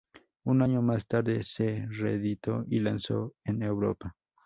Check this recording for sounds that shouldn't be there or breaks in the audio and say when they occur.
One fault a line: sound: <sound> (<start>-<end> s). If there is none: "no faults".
no faults